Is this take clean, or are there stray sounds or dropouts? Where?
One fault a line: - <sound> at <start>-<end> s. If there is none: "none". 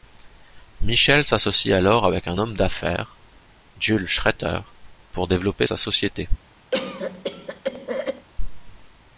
- cough at 6.7-8.3 s